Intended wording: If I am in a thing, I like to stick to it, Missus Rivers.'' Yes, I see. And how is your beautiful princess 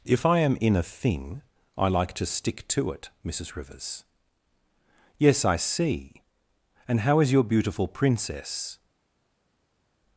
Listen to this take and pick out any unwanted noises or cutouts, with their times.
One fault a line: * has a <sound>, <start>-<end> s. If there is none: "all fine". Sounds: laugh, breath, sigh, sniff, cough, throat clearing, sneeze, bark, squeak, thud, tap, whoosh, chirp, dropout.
all fine